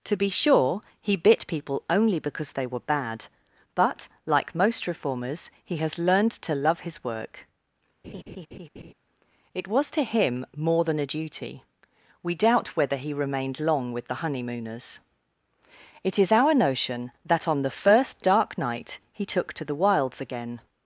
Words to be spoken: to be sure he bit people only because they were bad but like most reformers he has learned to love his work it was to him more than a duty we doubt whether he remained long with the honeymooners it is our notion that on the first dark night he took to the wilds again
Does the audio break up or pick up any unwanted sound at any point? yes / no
yes